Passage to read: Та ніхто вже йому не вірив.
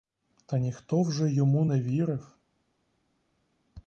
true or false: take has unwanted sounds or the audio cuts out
false